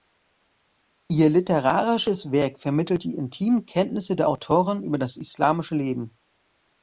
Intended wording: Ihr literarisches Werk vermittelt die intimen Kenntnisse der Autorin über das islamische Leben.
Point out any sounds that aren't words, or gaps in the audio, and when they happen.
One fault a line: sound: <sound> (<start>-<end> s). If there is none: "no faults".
no faults